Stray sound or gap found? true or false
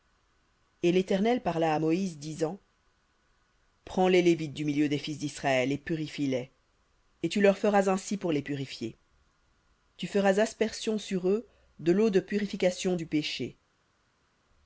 false